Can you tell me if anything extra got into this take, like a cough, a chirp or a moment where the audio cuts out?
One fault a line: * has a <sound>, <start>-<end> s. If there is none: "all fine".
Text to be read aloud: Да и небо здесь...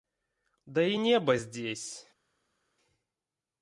all fine